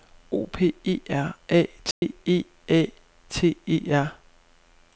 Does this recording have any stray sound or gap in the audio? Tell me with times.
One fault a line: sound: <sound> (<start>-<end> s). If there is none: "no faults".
sound: dropout (1.9-2.0 s)